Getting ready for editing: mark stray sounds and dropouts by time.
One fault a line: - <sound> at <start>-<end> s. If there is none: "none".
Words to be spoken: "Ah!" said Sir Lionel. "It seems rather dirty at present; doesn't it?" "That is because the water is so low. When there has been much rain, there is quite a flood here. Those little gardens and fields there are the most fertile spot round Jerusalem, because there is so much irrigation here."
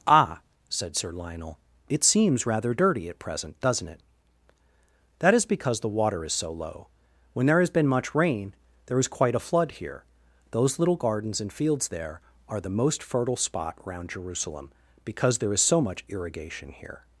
none